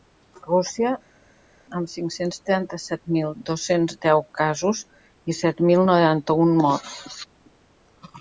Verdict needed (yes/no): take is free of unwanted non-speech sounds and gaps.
yes